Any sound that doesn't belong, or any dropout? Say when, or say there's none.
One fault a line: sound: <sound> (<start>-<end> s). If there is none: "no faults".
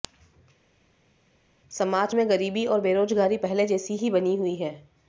no faults